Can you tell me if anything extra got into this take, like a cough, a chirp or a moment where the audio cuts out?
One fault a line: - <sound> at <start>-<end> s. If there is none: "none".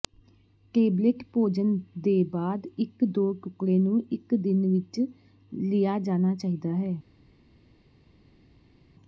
none